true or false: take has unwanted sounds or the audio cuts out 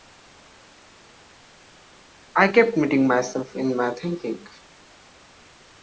false